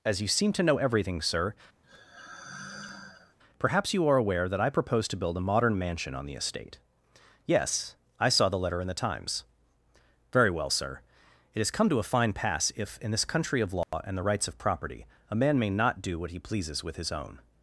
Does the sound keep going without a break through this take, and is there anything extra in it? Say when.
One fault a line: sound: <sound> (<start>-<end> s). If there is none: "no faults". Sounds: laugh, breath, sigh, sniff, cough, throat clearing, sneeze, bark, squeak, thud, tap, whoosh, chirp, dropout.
sound: sigh (1.8-3.4 s)
sound: dropout (13.8-13.9 s)